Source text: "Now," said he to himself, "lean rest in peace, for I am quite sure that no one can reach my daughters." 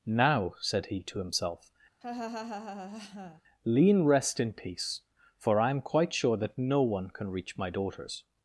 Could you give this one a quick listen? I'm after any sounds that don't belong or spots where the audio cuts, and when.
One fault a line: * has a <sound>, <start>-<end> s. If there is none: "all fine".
* has a laugh, 2.0-3.4 s